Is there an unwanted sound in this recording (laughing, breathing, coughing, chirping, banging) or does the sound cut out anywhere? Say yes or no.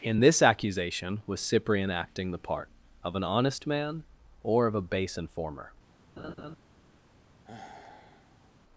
yes